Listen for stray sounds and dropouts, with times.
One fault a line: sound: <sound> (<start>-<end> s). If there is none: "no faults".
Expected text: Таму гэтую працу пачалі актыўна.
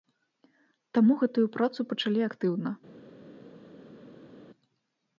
no faults